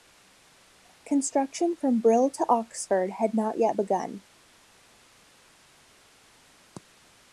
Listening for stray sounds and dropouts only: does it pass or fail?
pass